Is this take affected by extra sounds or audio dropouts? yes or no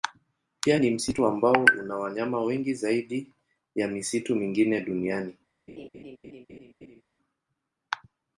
yes